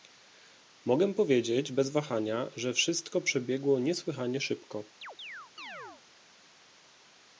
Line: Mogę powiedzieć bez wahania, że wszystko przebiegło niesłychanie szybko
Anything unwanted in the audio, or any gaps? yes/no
yes